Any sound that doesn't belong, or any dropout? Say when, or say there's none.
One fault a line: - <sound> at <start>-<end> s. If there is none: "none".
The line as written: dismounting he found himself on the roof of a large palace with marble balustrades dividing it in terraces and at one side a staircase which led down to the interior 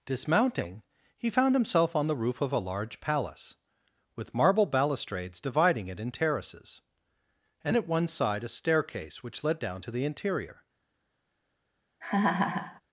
- laugh at 12.0-12.8 s